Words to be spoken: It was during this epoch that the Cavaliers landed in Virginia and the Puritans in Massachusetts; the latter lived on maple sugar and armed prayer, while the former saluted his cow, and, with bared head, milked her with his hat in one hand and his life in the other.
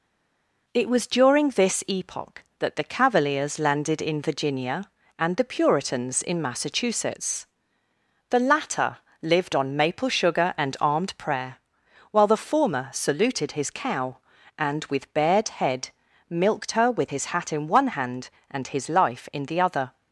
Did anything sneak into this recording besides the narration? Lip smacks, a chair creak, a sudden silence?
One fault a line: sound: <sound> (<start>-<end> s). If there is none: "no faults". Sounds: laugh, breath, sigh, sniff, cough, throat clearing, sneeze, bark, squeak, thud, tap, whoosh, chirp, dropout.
no faults